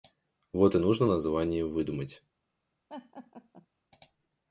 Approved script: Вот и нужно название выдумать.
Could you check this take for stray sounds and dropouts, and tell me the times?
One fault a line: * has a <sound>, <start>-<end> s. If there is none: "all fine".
* has a laugh, 2.9-3.7 s